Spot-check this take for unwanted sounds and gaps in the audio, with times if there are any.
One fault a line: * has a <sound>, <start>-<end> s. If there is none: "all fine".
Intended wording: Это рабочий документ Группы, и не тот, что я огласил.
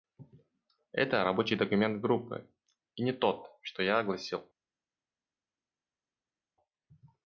all fine